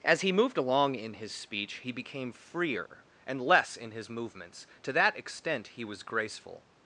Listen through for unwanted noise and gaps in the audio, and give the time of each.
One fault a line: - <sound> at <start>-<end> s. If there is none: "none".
none